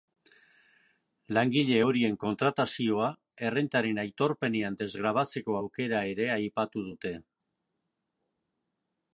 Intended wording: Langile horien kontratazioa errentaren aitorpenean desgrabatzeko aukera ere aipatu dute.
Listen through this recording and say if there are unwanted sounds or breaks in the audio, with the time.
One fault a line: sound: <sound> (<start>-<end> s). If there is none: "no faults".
no faults